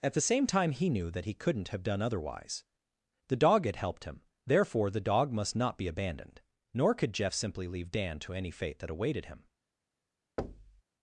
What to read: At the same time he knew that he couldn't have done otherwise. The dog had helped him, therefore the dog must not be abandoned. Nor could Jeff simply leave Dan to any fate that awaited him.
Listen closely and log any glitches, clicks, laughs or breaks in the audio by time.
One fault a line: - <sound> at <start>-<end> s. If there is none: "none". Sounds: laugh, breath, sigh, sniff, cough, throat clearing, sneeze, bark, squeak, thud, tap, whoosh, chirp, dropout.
- thud at 10.4-10.8 s